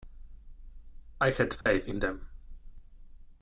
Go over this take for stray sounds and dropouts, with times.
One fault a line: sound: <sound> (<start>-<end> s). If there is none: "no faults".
sound: dropout (1.6-1.7 s)